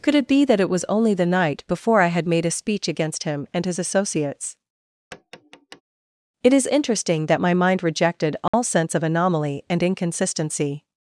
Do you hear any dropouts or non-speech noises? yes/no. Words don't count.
yes